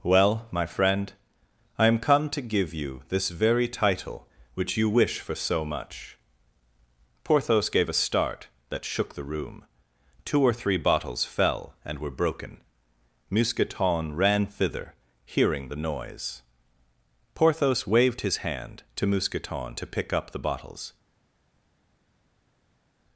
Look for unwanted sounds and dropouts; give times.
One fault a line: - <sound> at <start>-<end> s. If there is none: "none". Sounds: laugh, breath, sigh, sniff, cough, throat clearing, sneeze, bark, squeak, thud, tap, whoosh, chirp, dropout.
none